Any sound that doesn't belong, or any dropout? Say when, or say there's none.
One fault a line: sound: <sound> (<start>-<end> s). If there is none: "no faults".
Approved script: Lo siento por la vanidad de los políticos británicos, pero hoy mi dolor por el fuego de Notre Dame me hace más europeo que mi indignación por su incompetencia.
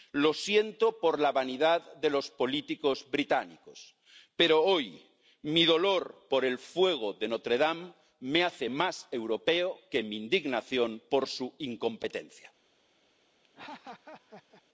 sound: laugh (13.4-14.6 s)